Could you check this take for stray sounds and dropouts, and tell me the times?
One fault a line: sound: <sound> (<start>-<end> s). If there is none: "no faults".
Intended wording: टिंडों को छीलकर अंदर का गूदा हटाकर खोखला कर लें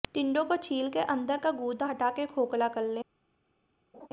sound: laugh (3.9-4.1 s)